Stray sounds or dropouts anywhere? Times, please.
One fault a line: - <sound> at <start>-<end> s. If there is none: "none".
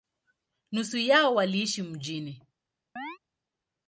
- chirp at 3.0-3.2 s